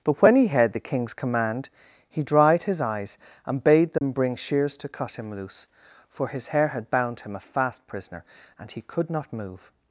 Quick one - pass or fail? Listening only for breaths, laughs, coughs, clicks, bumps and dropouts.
fail